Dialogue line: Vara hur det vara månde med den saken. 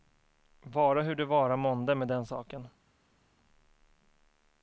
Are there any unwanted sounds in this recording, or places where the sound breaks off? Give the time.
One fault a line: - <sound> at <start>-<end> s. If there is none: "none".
none